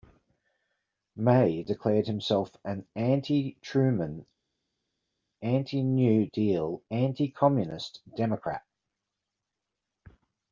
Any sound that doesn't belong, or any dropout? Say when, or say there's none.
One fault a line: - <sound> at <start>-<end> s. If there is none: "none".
none